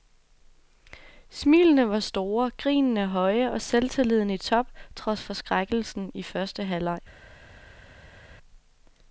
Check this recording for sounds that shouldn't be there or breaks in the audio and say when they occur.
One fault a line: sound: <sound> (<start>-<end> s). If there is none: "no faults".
no faults